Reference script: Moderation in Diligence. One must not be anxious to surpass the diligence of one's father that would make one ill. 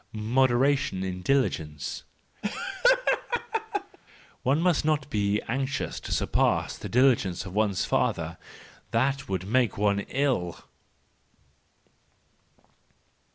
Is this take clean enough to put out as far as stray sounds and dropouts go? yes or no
no